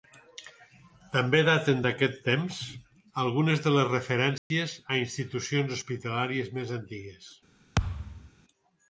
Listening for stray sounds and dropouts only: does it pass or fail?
fail